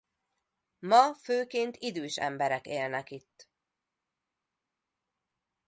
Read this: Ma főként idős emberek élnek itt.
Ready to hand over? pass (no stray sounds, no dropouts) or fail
pass